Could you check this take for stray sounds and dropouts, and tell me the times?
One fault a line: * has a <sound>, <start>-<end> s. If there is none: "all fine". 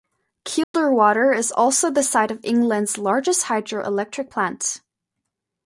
* has a dropout, 0.6-0.7 s